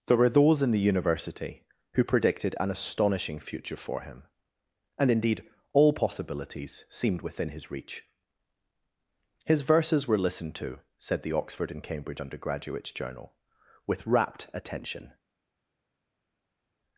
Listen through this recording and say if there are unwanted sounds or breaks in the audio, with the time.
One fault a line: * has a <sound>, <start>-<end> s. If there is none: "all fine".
all fine